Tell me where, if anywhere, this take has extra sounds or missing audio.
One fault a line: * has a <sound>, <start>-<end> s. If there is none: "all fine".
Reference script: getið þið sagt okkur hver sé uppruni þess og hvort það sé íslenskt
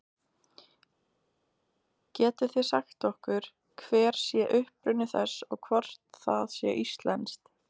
all fine